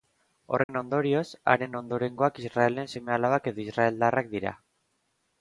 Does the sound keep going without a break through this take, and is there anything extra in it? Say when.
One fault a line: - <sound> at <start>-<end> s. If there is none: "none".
- dropout at 0.6-0.7 s